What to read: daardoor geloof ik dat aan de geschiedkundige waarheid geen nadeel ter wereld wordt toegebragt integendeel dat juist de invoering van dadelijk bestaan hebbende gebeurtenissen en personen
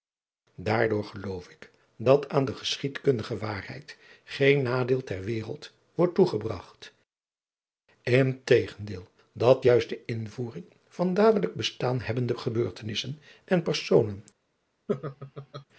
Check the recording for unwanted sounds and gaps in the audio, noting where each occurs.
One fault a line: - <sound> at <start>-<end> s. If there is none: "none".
- laugh at 14.9-15.7 s